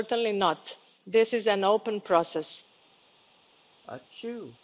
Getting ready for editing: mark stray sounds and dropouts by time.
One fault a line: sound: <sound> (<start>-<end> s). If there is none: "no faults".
sound: sneeze (3.8-4.6 s)